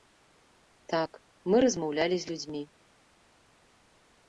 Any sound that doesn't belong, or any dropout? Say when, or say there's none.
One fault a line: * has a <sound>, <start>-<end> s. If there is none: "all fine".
all fine